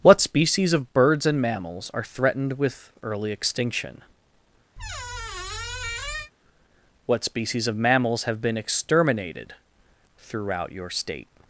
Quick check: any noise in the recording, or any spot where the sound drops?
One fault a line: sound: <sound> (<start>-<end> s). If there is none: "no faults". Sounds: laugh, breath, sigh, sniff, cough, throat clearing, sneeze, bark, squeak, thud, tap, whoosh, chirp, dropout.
sound: squeak (4.8-6.3 s)